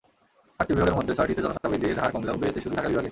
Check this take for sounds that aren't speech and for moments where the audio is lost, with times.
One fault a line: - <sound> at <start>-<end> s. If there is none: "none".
- dropout at 1.6-1.6 s